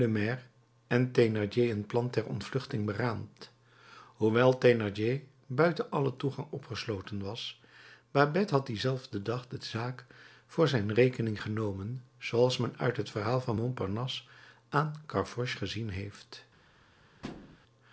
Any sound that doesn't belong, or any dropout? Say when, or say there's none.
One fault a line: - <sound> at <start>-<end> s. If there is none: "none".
- thud at 17.2-17.6 s